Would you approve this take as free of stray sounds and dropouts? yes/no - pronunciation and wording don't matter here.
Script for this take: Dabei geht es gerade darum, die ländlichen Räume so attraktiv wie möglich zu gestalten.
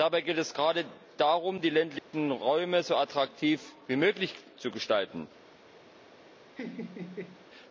no